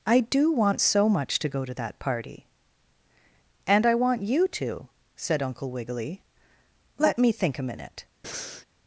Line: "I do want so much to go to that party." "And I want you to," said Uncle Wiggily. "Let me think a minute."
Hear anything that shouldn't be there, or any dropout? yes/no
yes